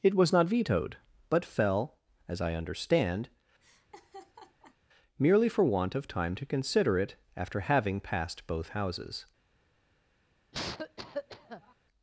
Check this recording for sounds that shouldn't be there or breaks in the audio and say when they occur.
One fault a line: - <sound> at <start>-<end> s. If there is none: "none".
- laugh at 3.6-4.8 s
- cough at 10.5-11.7 s